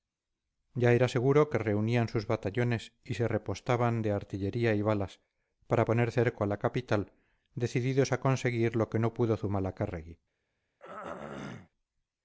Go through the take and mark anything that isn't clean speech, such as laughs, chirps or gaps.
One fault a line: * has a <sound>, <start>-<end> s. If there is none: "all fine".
* has a throat clearing, 10.8-11.7 s